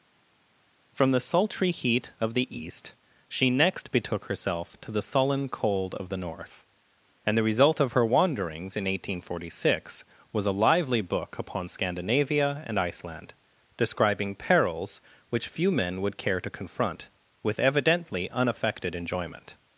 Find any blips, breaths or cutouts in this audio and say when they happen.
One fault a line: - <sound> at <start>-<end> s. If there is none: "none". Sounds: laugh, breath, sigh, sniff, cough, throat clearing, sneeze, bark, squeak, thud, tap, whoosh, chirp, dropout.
none